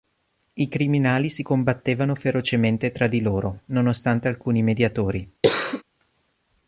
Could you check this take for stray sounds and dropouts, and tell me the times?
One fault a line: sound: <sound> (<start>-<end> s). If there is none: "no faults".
sound: cough (5.4-5.8 s)